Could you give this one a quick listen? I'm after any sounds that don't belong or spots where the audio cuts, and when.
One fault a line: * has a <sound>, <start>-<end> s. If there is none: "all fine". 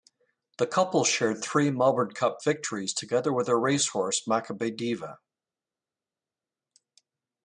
all fine